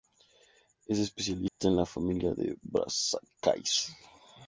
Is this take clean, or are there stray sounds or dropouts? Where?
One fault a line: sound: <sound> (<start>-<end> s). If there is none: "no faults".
sound: dropout (1.5-1.6 s)